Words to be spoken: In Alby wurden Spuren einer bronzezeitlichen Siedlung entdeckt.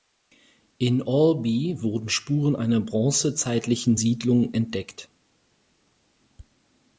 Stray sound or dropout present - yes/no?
no